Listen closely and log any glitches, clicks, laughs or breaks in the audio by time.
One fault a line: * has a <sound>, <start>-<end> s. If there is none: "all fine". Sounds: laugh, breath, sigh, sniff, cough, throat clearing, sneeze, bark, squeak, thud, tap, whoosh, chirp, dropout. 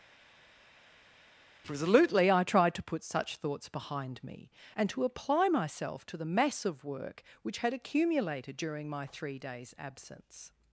all fine